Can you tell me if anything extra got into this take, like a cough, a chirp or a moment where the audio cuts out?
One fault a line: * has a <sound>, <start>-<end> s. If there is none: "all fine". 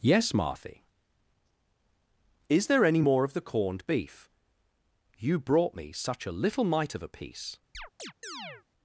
* has a chirp, 7.7-8.6 s